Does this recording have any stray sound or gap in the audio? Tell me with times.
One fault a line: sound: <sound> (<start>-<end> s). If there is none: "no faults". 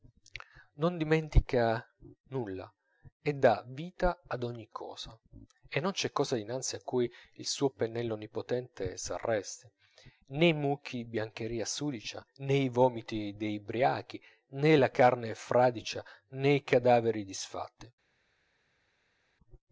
no faults